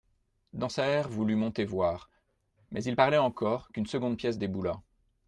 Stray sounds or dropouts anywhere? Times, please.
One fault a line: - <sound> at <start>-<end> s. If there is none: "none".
none